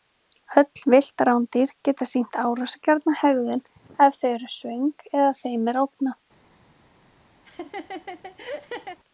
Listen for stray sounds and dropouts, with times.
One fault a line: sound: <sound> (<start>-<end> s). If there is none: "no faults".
sound: laugh (7.4-9.0 s)